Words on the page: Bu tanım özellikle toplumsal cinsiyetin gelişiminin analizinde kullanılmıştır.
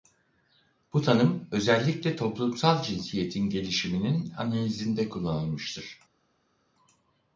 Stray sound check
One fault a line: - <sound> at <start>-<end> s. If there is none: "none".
none